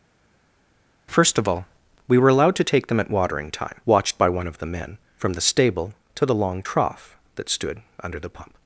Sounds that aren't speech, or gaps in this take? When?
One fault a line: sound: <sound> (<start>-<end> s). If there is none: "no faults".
no faults